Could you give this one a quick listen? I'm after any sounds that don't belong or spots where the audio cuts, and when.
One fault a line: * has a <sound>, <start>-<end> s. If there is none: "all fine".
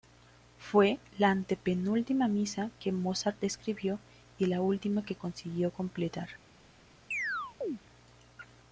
* has a chirp, 7.1-7.8 s